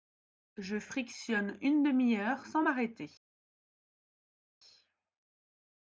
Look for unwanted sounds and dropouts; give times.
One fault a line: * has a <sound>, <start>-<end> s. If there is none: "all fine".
all fine